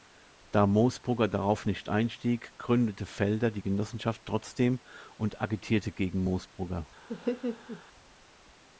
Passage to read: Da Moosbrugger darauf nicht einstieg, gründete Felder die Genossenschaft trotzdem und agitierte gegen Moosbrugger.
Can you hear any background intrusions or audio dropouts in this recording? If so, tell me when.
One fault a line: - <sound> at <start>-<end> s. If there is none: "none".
- laugh at 7.1-7.8 s